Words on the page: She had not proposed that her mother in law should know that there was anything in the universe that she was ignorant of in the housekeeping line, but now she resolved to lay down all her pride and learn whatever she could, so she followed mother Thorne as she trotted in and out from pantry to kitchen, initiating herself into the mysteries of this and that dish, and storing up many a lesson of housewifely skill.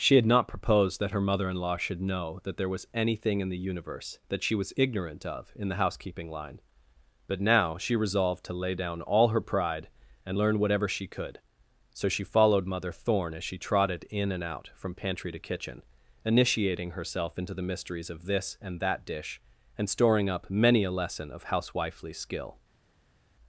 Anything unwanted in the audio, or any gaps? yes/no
no